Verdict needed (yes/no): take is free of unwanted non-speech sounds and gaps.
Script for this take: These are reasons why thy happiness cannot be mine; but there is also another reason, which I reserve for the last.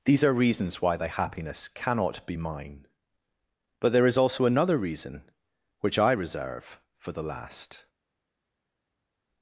yes